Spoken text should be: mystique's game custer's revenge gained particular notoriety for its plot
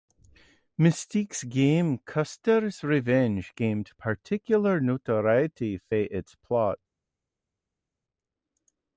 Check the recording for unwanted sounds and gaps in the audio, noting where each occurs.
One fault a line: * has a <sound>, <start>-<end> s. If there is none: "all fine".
all fine